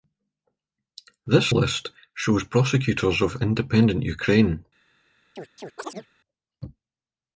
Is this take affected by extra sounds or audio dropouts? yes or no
yes